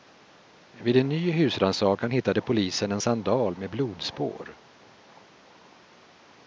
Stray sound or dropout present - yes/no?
no